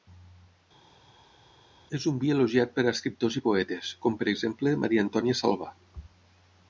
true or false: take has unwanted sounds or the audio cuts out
false